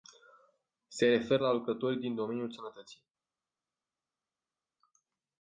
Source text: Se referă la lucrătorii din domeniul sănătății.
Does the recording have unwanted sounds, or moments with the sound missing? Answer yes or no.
no